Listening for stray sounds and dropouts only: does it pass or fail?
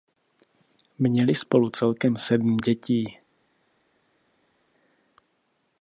pass